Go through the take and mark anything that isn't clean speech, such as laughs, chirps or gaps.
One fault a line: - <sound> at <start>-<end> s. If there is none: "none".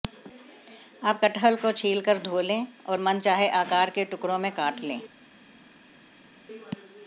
none